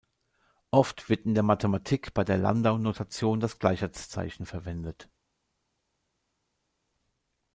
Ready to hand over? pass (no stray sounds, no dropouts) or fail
pass